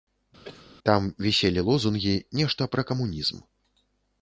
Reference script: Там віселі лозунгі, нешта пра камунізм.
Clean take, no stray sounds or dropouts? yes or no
no